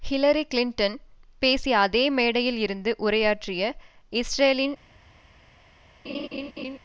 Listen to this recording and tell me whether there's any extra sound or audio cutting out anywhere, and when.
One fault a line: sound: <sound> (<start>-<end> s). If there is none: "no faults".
sound: laugh (6.0-6.8 s)